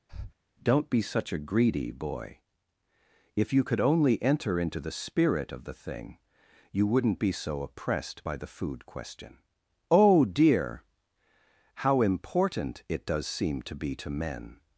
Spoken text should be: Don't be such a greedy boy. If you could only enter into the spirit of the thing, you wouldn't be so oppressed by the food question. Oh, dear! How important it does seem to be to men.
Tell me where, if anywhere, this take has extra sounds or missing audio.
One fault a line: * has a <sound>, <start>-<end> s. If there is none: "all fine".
* has a breath, 0.1-0.3 s